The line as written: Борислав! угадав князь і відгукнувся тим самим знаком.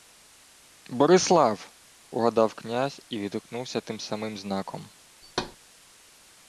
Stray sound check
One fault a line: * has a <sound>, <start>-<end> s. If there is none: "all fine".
* has a thud, 5.2-5.6 s